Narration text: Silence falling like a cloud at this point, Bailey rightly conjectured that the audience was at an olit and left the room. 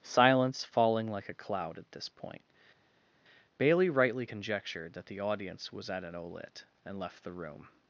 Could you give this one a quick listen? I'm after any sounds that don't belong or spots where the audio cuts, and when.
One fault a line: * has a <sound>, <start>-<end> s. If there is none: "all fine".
all fine